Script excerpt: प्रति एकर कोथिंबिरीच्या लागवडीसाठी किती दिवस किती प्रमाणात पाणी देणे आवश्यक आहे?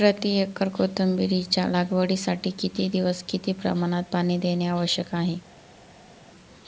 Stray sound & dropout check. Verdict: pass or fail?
pass